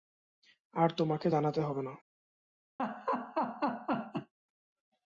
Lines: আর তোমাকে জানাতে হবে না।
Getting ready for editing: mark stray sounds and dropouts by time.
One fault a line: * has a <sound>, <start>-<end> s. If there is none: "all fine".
* has a laugh, 2.8-4.3 s